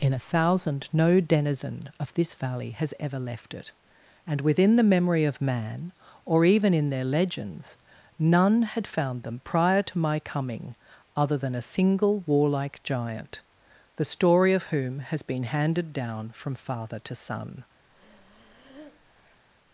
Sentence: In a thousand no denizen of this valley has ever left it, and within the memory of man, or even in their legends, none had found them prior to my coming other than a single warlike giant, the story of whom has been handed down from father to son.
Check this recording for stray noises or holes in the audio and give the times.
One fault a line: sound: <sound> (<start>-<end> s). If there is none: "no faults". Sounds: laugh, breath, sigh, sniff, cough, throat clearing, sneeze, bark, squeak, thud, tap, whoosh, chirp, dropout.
sound: breath (17.9-19.4 s)